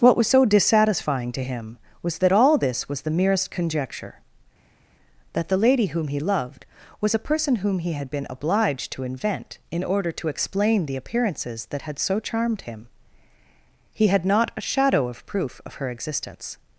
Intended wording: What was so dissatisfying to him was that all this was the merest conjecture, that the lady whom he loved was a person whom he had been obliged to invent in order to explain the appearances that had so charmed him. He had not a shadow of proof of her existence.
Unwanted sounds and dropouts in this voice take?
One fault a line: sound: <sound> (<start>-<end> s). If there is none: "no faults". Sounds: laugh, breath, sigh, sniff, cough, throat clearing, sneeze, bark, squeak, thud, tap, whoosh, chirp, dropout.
no faults